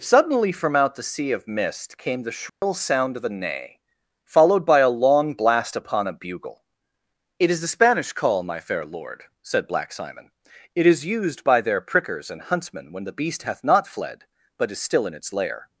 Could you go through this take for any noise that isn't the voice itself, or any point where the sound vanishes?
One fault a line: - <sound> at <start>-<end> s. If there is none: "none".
- dropout at 2.5-2.6 s